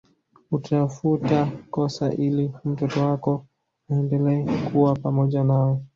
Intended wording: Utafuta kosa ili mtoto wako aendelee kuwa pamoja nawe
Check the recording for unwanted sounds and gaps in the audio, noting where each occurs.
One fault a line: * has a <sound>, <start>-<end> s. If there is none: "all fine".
all fine